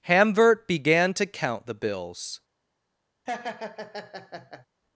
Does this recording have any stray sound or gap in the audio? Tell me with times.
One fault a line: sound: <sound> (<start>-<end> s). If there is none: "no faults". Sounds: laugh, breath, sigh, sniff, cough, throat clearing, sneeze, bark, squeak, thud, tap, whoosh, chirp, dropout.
sound: laugh (3.3-4.7 s)